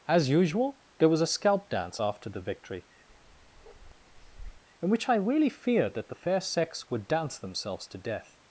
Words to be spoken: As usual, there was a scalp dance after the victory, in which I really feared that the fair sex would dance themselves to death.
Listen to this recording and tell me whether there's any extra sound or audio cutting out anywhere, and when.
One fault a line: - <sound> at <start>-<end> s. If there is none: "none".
- bark at 3.1-4.6 s